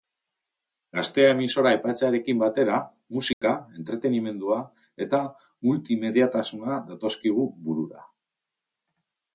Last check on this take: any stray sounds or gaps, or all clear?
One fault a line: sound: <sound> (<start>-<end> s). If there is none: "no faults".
sound: dropout (3.3-3.4 s)